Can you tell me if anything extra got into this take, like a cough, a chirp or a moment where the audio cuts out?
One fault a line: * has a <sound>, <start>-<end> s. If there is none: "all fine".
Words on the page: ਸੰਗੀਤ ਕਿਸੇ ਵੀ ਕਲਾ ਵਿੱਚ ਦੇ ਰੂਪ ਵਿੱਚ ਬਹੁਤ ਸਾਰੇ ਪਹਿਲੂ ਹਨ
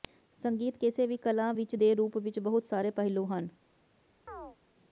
* has a chirp, 4.3-4.6 s